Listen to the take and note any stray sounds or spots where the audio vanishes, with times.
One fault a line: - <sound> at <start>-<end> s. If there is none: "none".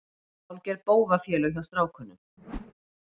- whoosh at 2.4-2.7 s